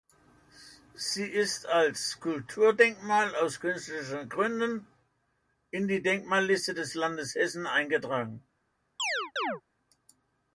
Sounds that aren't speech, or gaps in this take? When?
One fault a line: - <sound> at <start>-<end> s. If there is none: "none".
- chirp at 9.0-9.6 s